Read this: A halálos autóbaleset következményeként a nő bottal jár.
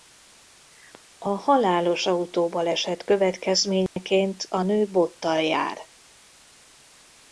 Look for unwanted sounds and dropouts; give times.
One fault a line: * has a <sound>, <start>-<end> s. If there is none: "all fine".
* has a dropout, 3.9-4.0 s